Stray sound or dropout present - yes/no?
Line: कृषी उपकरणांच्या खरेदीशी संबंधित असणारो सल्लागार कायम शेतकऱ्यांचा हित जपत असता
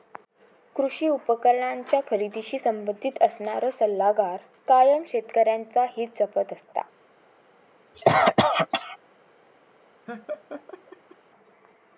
yes